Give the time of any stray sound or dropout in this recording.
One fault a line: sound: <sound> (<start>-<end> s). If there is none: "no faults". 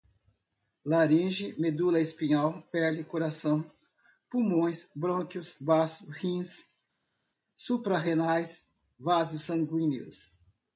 no faults